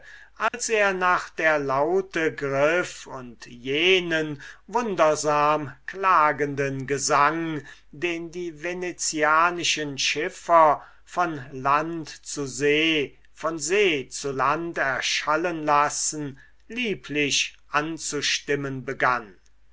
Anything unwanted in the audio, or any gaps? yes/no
yes